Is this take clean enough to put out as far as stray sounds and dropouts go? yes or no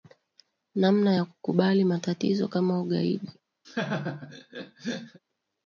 no